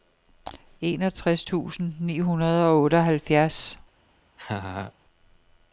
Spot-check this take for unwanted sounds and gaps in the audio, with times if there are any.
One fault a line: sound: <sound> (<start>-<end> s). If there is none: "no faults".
sound: laugh (4.4-4.9 s)